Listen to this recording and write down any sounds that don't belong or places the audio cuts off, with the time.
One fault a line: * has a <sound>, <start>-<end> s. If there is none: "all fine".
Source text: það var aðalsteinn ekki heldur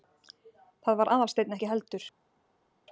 all fine